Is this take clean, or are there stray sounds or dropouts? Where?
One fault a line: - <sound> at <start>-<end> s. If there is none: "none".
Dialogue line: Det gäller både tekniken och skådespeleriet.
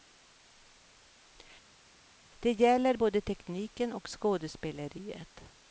none